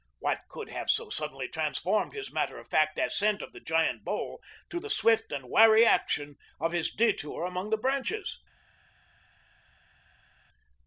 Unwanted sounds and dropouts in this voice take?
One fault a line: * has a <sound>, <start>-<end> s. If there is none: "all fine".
all fine